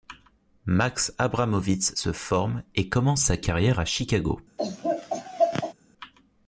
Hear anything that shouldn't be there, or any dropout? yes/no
yes